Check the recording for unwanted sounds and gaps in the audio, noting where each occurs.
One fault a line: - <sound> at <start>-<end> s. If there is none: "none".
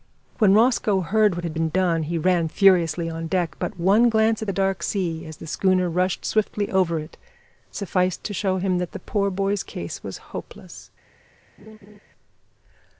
- laugh at 11.6-12.0 s